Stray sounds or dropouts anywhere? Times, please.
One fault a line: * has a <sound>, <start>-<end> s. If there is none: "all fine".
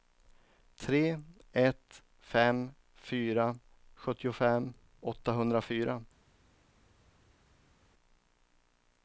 all fine